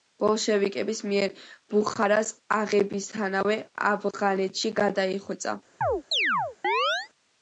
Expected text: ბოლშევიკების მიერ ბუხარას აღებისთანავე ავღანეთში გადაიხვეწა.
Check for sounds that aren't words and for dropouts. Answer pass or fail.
fail